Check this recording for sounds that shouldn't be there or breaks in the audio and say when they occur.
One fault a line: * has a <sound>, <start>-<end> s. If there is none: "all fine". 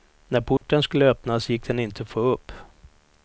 * has a dropout, 0.6-0.6 s